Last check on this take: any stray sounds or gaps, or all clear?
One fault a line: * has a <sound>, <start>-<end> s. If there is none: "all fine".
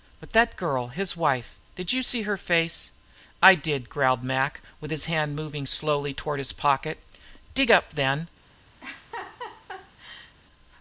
* has a laugh, 8.8-10.4 s